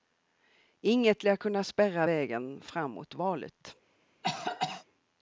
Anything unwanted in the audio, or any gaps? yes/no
yes